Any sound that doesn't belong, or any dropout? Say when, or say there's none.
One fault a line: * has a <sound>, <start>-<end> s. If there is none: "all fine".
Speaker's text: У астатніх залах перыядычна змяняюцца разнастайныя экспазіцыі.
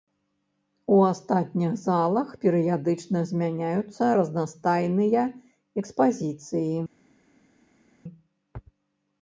all fine